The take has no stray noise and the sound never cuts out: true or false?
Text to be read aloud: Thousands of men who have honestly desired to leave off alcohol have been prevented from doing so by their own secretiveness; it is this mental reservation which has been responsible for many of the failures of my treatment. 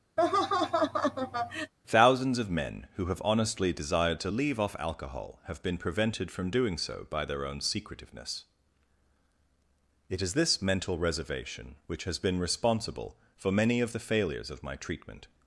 false